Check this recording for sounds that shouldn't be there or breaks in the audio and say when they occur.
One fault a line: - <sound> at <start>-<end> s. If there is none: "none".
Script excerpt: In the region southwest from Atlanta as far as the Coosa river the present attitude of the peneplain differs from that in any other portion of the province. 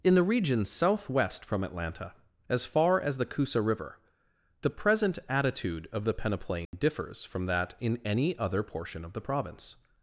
- dropout at 6.7-6.7 s